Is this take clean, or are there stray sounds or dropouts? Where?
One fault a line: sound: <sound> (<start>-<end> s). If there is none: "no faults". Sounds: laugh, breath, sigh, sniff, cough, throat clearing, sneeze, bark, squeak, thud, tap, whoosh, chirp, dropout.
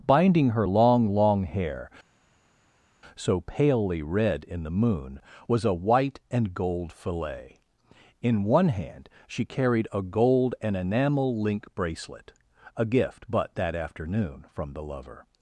no faults